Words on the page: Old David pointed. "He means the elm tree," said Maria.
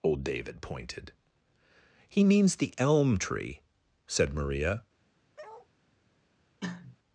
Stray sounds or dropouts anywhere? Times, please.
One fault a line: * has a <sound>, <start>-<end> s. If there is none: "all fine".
* has a bark, 5.4-5.7 s
* has a cough, 6.6-7.0 s